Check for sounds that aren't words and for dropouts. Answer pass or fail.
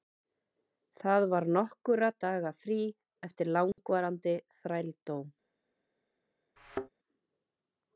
fail